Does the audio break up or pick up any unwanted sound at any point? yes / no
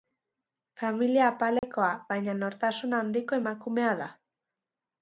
yes